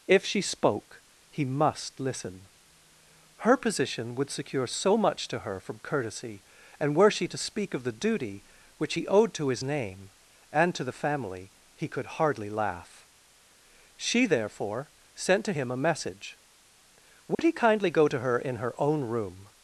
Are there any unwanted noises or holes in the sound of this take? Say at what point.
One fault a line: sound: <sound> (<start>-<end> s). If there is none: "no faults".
sound: dropout (17.3-17.4 s)